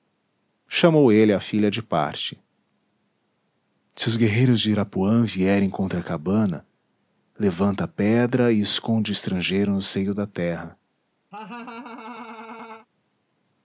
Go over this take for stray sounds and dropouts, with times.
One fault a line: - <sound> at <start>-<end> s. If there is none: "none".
- laugh at 11.3-12.9 s